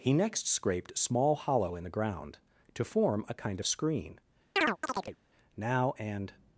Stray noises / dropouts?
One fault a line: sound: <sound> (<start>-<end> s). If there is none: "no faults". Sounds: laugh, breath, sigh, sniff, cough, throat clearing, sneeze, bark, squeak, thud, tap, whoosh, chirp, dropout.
sound: chirp (4.6-5.2 s)